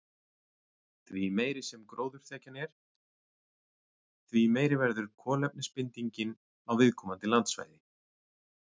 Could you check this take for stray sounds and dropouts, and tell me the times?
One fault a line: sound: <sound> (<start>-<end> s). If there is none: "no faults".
no faults